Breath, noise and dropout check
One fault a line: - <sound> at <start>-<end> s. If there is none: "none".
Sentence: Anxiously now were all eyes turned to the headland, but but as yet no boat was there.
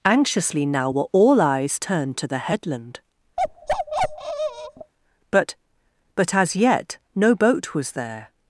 - bark at 3.4-4.9 s